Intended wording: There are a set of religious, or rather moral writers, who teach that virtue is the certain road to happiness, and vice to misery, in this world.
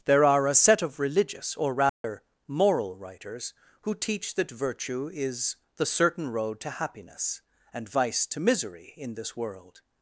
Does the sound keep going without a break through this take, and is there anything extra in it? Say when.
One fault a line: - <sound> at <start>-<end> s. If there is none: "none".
- dropout at 1.9-2.0 s